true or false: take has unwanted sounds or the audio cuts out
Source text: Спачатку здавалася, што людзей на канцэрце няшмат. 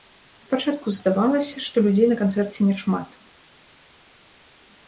false